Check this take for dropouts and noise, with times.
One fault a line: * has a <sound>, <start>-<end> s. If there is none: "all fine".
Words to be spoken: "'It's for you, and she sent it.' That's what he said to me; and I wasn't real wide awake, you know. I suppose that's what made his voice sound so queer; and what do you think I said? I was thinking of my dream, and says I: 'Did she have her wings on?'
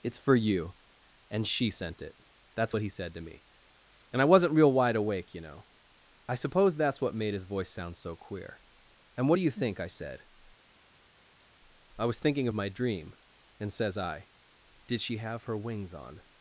all fine